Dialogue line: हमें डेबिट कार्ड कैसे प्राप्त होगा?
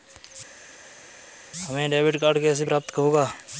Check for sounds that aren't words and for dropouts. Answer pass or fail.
pass